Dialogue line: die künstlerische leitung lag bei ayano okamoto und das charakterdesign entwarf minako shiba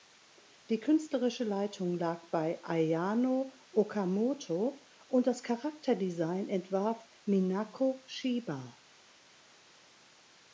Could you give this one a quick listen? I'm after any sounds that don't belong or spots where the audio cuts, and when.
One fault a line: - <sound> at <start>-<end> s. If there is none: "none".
none